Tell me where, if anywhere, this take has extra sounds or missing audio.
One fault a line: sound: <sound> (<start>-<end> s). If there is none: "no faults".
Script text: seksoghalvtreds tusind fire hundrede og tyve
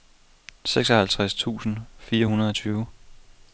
no faults